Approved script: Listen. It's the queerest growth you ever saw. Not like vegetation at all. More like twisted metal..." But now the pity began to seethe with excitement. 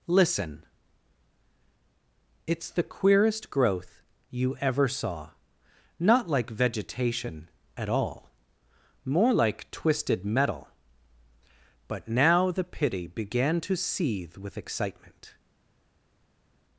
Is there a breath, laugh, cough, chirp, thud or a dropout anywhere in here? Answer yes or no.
no